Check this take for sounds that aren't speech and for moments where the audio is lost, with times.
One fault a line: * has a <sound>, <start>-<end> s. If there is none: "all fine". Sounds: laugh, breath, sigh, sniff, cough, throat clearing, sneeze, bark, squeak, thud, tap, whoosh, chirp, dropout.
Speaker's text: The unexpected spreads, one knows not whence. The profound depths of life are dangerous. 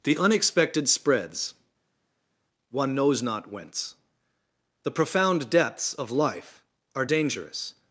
all fine